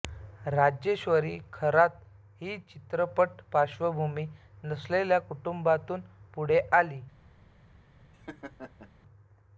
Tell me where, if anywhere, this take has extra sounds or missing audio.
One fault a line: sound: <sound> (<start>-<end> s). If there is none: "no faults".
sound: laugh (8.1-8.9 s)